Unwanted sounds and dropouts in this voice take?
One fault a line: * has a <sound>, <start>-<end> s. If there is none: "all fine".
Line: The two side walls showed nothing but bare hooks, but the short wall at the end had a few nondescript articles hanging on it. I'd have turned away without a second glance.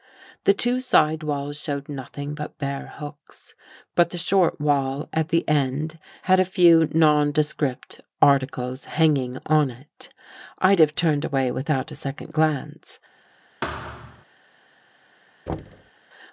* has a thud, 13.6-14.2 s
* has a thud, 15.5-15.9 s